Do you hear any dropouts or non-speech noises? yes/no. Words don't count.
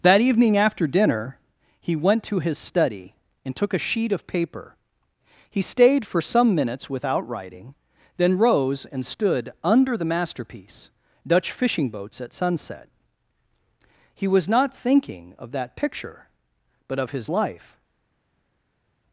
no